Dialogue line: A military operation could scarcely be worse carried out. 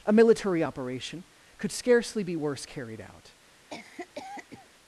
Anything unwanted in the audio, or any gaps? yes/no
yes